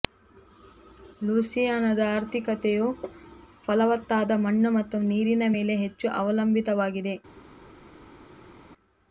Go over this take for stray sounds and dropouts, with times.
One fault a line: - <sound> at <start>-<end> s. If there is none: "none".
none